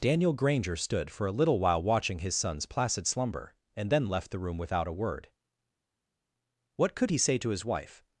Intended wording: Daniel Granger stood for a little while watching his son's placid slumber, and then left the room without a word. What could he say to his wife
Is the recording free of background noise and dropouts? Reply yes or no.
yes